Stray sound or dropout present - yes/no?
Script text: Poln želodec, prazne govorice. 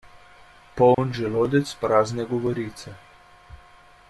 yes